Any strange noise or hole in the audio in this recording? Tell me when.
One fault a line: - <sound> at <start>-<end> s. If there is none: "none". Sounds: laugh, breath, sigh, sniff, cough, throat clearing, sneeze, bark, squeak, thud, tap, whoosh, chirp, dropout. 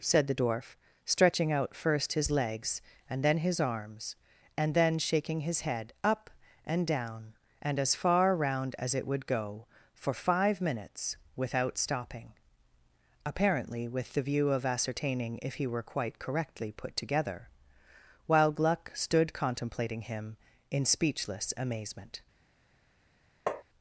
- tap at 23.5-23.6 s